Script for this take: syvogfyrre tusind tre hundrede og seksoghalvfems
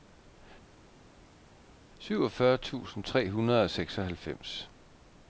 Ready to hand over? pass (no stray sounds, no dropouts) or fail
pass